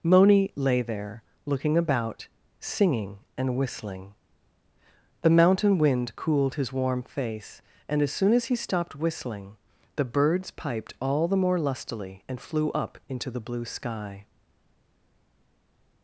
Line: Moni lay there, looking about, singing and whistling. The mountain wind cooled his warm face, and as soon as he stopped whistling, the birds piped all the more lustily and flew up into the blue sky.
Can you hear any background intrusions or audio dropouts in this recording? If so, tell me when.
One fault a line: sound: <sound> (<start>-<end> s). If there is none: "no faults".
no faults